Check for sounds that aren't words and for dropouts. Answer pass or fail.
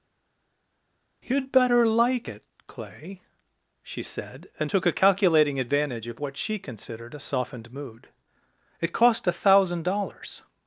pass